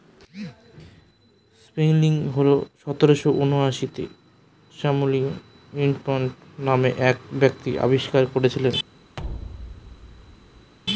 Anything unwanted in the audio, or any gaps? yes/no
yes